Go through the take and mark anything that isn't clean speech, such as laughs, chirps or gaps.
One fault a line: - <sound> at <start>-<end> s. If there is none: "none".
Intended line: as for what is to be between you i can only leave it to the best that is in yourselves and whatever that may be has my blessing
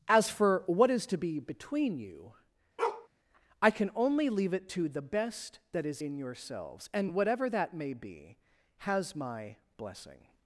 - bark at 2.8-3.1 s